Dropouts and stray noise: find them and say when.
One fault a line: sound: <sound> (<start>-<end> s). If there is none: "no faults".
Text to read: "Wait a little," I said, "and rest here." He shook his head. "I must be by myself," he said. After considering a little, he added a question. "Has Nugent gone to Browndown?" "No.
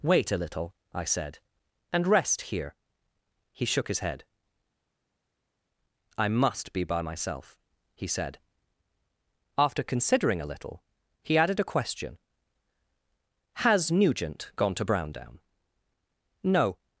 no faults